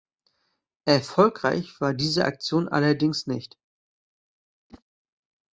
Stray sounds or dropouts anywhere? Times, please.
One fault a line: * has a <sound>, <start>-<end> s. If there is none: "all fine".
* has a whoosh, 4.7-4.8 s